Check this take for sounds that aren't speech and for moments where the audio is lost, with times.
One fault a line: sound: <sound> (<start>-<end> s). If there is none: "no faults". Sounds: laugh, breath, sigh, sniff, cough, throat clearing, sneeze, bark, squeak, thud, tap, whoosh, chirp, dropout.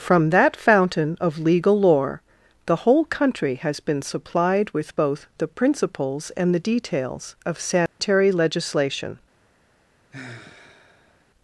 sound: dropout (7.9-8.0 s)
sound: sigh (10.1-11.2 s)